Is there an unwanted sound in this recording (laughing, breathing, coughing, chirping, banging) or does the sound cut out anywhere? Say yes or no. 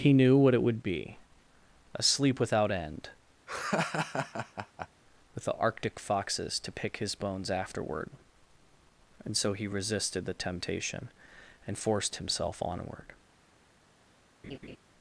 yes